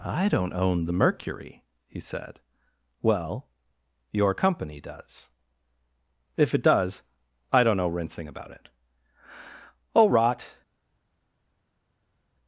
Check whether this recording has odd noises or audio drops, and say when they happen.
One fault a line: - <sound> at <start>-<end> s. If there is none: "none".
none